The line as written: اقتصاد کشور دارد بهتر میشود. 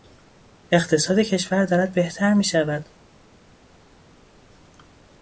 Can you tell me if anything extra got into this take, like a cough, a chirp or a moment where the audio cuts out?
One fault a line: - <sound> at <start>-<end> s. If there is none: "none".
none